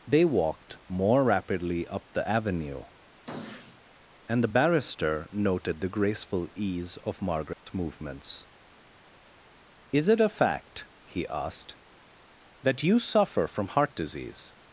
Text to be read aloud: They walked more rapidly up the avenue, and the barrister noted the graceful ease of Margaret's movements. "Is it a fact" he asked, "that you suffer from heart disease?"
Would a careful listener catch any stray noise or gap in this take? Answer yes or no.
yes